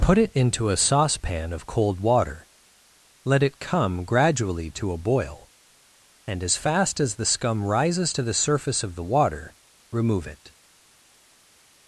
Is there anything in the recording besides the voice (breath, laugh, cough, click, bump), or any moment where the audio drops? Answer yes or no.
no